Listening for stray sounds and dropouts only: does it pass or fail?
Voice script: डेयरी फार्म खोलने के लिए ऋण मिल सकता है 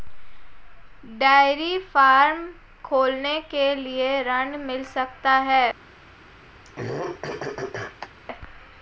fail